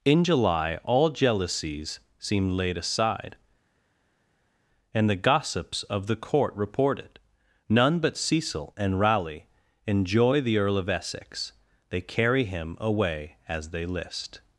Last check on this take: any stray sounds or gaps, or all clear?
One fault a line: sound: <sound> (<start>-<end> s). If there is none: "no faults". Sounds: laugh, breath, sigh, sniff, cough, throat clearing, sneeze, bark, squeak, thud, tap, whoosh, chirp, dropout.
no faults